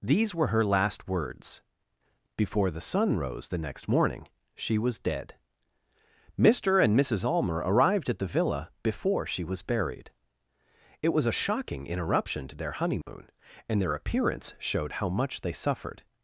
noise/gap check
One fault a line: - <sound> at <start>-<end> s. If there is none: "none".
- dropout at 13.0-13.1 s